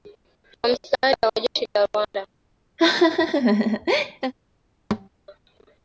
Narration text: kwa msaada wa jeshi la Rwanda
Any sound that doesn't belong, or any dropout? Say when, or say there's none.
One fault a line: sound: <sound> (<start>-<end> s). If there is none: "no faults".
sound: laugh (2.8-4.3 s)
sound: thud (4.9-5.1 s)